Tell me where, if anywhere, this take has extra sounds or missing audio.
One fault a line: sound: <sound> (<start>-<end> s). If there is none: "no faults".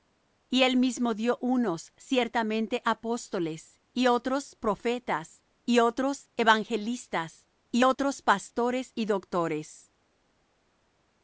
no faults